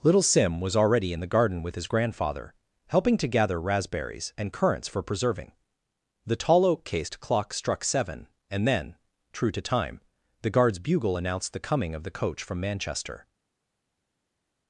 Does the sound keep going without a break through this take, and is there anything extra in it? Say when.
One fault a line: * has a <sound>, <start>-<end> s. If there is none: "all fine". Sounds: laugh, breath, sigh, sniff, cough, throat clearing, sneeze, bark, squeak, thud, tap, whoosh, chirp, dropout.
all fine